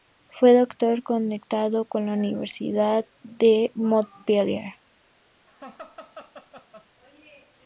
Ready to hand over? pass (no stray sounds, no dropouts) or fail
fail